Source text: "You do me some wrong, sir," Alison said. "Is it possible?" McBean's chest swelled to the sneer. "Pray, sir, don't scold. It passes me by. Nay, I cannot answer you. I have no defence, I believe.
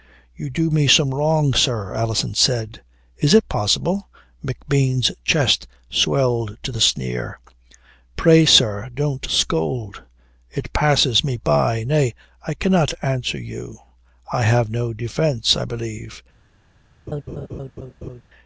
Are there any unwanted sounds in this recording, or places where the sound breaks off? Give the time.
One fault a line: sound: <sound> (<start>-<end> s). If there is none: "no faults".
sound: laugh (17.1-18.2 s)